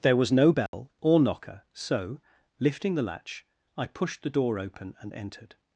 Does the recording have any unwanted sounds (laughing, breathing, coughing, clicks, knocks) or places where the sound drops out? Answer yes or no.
yes